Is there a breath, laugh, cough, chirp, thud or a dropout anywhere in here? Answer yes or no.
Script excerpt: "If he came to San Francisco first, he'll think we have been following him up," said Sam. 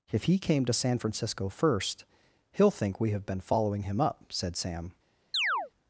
yes